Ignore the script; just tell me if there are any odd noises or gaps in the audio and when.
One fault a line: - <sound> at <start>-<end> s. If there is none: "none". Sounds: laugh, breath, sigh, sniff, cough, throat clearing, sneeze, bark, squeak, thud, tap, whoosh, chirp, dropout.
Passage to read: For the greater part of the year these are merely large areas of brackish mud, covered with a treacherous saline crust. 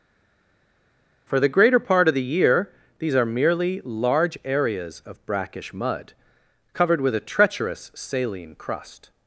none